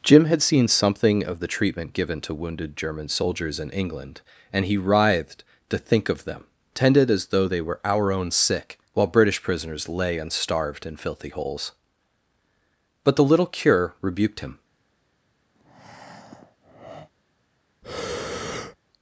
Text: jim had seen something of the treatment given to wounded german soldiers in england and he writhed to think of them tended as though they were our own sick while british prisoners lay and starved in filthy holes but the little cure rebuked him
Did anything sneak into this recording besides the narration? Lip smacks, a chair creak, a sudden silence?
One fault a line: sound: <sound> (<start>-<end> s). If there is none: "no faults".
sound: breath (15.6-17.1 s)
sound: breath (17.8-18.8 s)